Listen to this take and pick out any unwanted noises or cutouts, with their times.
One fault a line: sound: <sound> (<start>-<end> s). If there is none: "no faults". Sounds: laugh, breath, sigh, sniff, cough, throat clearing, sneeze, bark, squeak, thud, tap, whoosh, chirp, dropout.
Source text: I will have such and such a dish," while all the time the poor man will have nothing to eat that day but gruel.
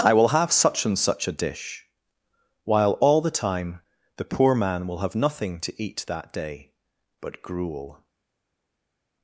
no faults